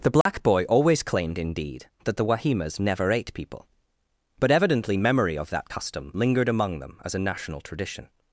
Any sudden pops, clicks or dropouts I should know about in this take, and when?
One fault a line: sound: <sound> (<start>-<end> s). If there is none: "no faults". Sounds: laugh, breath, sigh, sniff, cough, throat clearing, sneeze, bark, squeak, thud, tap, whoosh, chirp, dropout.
sound: dropout (0.2-0.3 s)